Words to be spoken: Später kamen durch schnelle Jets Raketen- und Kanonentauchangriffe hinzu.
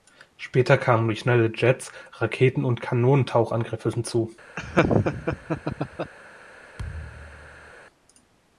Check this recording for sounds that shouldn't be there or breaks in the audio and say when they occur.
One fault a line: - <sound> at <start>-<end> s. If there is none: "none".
- laugh at 4.6-6.1 s
- thud at 6.8-7.7 s